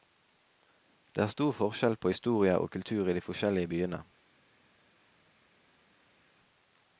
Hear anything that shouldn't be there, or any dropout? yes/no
no